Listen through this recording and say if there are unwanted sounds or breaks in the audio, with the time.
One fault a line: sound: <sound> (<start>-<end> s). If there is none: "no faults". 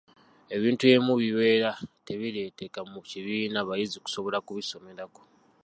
no faults